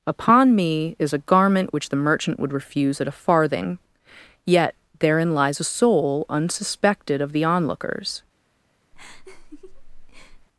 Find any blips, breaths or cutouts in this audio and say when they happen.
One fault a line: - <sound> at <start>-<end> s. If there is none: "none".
- laugh at 8.9-10.5 s